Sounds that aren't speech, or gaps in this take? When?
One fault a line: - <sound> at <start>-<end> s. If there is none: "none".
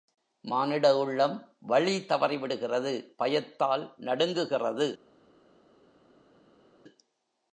none